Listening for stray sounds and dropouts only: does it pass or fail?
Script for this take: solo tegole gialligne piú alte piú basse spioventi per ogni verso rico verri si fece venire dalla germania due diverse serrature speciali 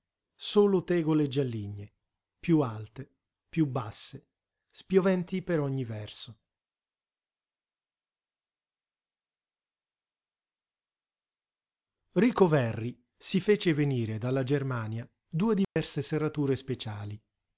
fail